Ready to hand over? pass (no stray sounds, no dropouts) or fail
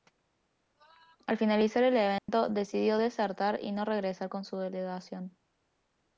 fail